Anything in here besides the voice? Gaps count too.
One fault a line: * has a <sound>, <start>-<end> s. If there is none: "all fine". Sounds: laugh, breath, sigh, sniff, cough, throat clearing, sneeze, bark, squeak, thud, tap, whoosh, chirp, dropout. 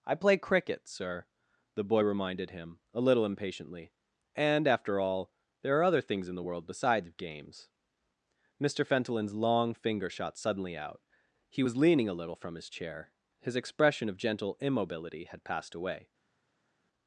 all fine